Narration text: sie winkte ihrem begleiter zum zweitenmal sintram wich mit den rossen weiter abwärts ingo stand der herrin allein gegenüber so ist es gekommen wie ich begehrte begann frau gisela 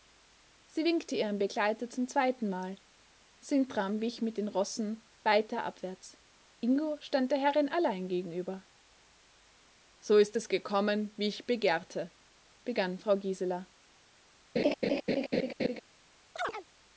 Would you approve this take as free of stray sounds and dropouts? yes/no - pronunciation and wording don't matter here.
no